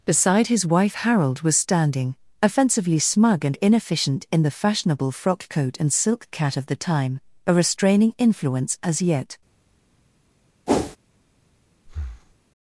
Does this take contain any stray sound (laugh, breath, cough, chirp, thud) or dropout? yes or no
yes